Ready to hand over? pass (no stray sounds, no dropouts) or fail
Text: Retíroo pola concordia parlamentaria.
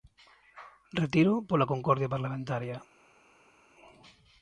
pass